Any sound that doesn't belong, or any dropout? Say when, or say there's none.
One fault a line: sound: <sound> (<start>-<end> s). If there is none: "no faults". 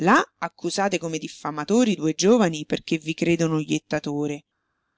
no faults